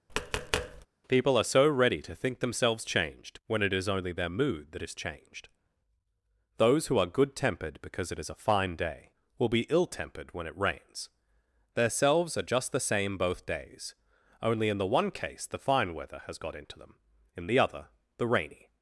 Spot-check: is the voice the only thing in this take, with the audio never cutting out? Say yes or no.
no